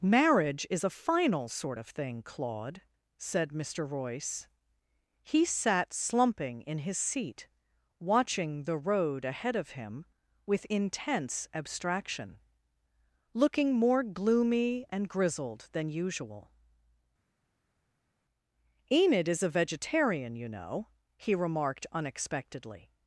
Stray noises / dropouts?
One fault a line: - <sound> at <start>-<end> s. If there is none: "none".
none